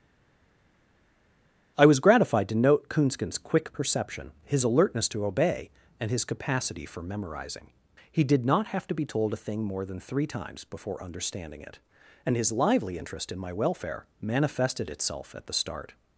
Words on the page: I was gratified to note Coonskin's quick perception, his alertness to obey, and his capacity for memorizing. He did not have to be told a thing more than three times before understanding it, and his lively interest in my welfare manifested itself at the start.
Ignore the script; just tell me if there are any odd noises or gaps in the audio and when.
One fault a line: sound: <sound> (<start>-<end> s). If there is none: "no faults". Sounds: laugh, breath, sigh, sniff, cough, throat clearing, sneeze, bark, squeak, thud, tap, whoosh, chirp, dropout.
no faults